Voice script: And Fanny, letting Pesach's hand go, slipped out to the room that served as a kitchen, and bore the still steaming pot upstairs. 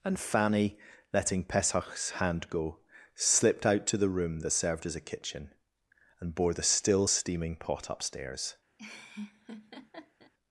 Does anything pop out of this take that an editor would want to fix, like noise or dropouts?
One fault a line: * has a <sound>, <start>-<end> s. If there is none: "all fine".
* has a laugh, 8.8-10.3 s